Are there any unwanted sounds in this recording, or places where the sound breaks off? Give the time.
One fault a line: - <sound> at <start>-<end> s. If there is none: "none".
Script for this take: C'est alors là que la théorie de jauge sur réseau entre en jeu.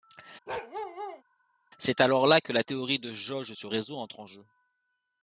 - bark at 0.5-1.2 s